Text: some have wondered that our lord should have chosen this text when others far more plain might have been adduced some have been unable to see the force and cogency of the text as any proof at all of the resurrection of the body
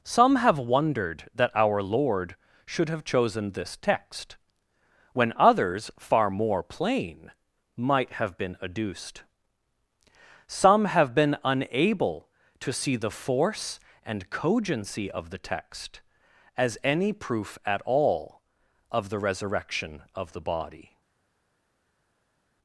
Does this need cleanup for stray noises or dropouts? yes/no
no